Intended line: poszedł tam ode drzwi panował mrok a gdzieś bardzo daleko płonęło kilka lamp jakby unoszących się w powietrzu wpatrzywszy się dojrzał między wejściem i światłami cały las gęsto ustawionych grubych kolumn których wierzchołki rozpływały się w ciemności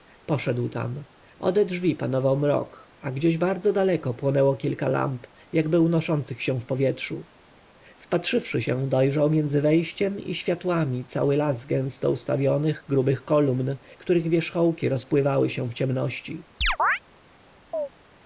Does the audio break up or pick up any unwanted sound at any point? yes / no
yes